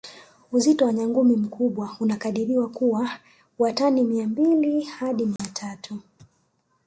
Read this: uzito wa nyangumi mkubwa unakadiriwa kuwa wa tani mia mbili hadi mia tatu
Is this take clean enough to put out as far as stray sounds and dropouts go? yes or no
no